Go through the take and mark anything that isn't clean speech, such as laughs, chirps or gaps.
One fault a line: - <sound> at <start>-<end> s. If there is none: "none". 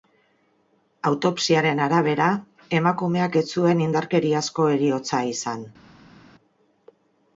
none